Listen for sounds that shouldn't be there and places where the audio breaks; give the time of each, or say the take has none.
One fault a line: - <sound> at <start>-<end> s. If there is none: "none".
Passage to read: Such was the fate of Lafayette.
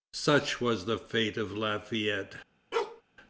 - bark at 2.7-3.0 s